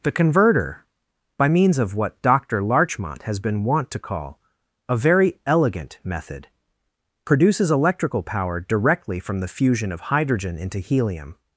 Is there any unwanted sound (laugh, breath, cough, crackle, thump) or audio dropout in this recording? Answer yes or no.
no